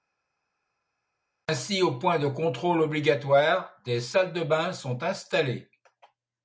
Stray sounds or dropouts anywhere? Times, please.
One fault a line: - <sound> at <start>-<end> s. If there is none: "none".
none